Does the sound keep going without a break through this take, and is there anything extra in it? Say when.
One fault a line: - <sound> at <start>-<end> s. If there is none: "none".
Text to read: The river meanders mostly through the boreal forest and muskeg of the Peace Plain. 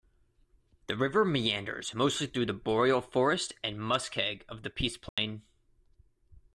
- dropout at 5.1-5.2 s